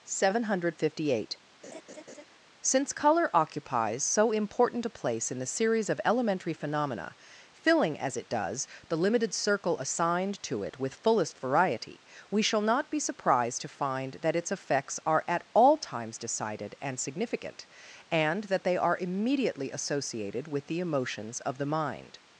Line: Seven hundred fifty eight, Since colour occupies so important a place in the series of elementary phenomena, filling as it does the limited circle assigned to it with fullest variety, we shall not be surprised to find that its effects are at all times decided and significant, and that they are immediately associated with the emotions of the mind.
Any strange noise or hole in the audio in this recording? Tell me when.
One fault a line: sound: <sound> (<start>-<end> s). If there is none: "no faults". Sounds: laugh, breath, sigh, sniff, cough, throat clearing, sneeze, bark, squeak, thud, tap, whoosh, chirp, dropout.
sound: laugh (1.6-2.2 s)